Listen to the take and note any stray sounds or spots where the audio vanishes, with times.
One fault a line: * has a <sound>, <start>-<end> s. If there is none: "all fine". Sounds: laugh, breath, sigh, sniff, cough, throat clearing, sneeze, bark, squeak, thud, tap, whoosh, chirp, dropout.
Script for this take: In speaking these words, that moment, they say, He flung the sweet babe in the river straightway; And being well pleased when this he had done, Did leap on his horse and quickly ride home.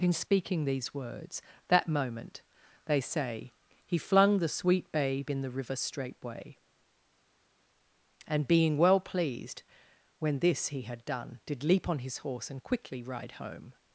all fine